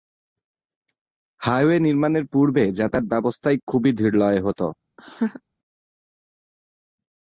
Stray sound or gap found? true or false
true